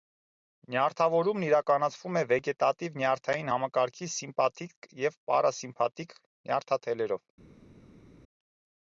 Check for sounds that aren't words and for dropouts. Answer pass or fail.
pass